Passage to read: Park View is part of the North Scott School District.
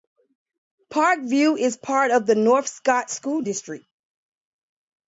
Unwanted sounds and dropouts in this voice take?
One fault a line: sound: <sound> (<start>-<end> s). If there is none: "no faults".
no faults